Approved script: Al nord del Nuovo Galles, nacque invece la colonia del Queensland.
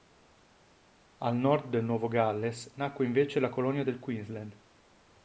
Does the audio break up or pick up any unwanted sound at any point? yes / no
no